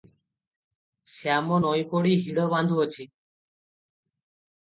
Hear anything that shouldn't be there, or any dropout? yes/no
no